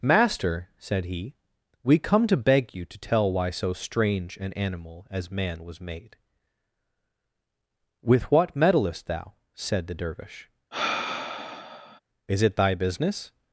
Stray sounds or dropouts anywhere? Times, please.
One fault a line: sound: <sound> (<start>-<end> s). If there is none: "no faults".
sound: sigh (10.7-12.0 s)